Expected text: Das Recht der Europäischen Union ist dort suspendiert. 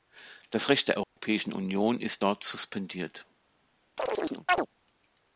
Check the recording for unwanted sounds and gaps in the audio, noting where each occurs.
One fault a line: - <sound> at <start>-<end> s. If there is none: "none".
- dropout at 1.0-1.2 s
- chirp at 4.0-4.7 s